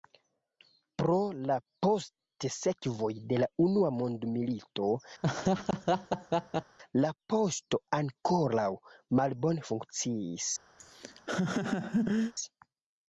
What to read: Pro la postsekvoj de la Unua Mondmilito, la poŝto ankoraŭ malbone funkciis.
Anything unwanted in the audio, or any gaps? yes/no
yes